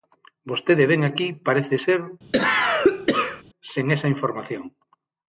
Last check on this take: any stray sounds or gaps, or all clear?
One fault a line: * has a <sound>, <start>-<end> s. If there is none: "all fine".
* has a cough, 2.3-3.4 s